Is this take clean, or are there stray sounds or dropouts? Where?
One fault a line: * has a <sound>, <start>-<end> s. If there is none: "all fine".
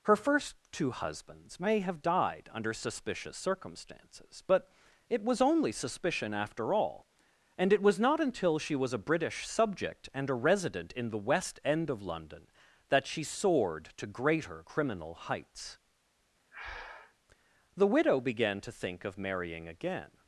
* has a breath, 16.5-17.1 s